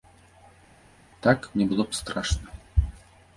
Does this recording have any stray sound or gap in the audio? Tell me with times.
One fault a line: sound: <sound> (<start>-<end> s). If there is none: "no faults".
no faults